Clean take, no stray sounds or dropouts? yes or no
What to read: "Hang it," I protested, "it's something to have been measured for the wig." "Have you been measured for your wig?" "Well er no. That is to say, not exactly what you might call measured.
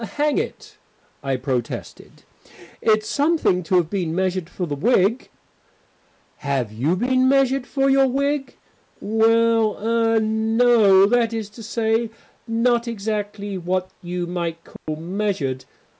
no